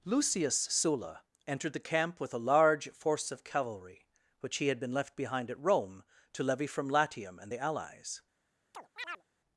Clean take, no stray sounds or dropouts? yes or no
no